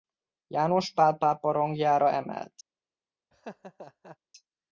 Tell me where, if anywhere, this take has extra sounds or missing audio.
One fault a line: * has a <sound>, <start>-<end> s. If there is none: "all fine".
* has a laugh, 3.3-4.2 s